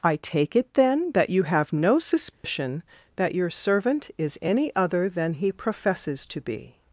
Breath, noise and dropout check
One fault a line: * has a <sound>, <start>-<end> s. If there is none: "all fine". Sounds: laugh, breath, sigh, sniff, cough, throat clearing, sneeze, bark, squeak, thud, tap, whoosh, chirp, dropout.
* has a dropout, 2.3-2.4 s